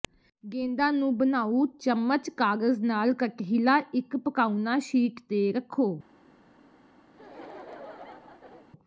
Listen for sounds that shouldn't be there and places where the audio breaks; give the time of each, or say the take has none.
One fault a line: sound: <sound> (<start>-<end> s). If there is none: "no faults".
sound: laugh (7.1-8.7 s)